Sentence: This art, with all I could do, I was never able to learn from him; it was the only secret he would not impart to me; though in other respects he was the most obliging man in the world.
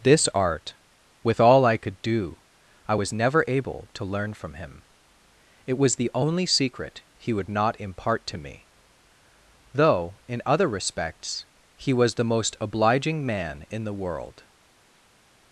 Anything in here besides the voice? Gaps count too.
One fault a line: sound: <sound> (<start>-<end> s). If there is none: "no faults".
no faults